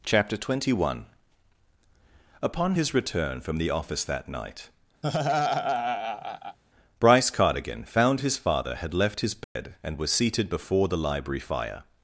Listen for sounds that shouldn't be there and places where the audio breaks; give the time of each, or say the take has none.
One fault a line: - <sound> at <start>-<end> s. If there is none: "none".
- laugh at 5.0-6.6 s
- dropout at 9.4-9.6 s